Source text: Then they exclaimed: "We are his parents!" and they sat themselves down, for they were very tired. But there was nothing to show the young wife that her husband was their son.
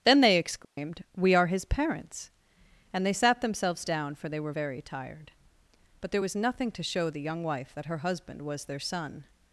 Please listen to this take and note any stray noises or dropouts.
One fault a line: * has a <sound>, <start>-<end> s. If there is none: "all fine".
* has a dropout, 0.6-0.8 s